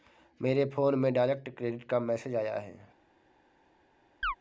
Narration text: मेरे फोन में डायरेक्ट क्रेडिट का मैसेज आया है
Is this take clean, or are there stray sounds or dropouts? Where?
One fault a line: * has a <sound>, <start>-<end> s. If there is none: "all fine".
* has a chirp, 4.2-4.4 s